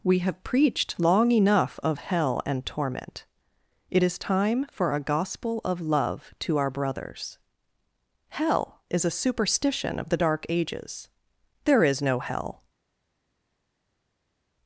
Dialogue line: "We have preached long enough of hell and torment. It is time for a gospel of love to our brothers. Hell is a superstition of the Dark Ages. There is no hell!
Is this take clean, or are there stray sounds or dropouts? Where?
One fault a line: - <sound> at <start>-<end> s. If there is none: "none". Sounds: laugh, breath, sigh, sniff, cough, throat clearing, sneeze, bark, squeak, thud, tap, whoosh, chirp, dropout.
none